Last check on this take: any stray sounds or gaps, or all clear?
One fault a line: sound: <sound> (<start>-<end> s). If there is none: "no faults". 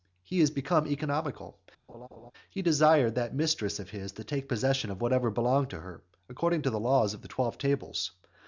sound: laugh (1.9-2.3 s)